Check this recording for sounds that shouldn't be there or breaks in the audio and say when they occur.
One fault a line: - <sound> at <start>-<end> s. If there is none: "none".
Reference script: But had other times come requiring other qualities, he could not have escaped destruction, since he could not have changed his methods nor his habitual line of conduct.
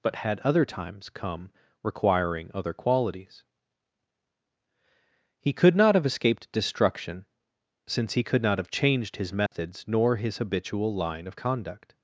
- dropout at 9.5-9.5 s